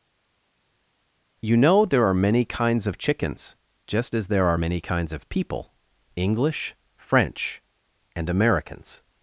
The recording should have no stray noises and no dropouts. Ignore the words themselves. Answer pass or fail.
pass